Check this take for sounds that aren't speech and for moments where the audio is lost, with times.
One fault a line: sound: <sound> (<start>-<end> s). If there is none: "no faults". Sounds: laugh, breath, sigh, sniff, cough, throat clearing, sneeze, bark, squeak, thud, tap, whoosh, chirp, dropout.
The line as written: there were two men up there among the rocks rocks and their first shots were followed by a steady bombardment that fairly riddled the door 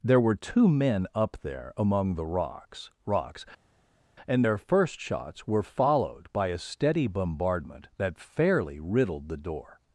no faults